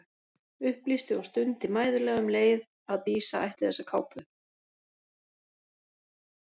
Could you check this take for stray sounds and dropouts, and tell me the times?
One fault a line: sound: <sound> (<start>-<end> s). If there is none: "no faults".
no faults